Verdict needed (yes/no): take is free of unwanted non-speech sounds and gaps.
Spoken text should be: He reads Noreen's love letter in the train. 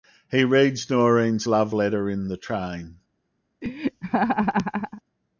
no